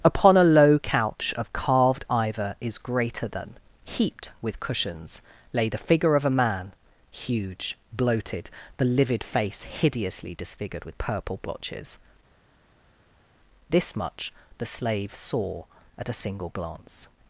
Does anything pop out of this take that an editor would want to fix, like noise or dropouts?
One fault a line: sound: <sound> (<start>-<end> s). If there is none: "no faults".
no faults